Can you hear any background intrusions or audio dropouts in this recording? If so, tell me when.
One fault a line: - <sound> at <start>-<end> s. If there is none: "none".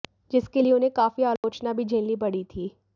- dropout at 1.4-1.4 s